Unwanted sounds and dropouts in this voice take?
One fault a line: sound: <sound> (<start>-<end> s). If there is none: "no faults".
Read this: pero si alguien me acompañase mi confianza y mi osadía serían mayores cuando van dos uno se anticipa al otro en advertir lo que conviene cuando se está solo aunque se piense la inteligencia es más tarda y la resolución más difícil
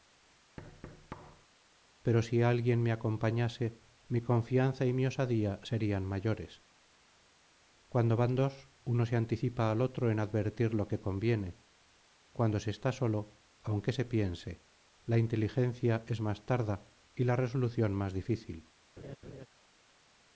sound: thud (0.6-1.5 s)
sound: laugh (19.0-19.5 s)